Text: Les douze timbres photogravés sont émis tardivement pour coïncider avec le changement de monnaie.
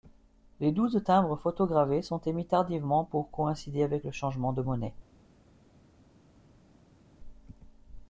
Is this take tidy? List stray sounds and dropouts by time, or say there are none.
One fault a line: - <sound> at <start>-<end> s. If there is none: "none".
none